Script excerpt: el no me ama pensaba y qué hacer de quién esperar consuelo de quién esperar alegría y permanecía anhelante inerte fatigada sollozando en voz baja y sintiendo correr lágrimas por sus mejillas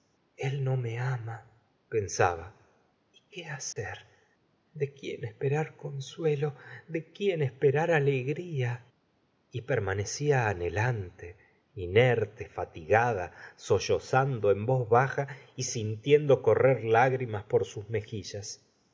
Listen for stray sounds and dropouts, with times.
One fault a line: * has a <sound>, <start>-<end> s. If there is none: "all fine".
* has a dropout, 3.7-3.8 s